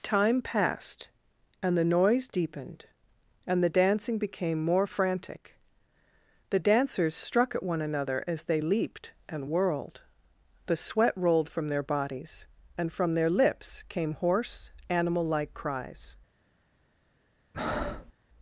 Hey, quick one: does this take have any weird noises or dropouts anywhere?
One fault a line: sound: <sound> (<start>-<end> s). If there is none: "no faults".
sound: breath (17.5-18.1 s)